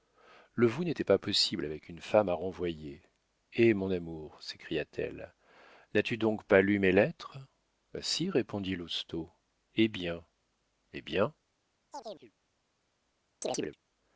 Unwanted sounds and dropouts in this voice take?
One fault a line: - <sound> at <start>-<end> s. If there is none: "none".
- chirp at 11.9-12.3 s
- chirp at 13.4-13.8 s